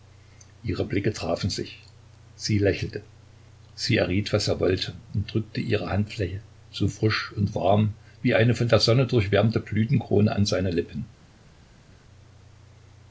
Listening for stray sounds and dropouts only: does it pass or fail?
pass